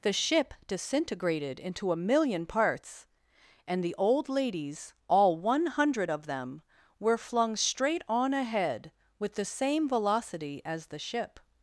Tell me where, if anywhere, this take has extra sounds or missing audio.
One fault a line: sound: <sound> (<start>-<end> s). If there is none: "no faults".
no faults